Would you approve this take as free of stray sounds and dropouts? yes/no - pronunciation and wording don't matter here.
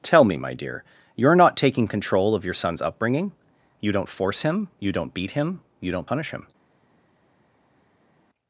yes